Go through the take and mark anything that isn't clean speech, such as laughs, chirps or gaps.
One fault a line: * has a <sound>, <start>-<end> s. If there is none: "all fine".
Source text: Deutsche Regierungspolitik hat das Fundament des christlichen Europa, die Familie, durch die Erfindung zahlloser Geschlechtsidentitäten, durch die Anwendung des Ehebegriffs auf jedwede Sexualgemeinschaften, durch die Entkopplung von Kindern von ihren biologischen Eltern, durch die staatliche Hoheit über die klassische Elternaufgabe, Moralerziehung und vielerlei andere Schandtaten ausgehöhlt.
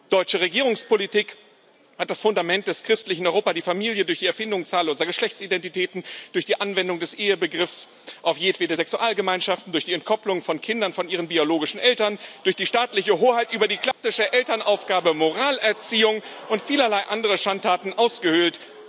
* has a dropout, 13.9-14.0 s